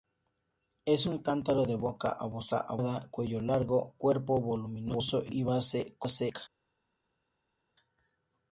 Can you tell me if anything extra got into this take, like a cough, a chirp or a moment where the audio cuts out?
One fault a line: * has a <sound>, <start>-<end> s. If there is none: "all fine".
all fine